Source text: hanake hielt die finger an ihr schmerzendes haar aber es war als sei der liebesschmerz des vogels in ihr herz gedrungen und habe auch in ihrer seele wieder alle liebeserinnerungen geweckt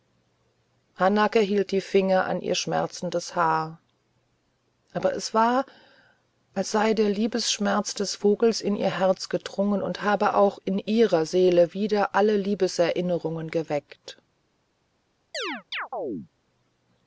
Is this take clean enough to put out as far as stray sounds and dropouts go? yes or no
no